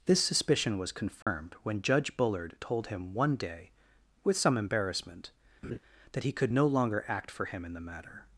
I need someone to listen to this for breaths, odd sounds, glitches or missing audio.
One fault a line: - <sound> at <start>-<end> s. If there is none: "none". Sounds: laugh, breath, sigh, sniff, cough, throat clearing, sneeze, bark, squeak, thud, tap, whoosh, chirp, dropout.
- dropout at 1.2-1.3 s
- laugh at 5.6-5.8 s